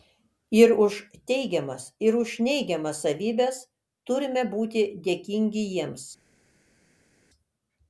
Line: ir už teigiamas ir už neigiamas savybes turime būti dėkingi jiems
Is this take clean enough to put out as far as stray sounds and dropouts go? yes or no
yes